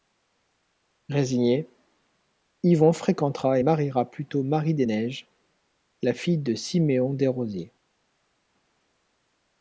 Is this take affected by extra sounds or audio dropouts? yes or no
no